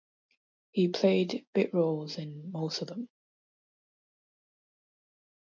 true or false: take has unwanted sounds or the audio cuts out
false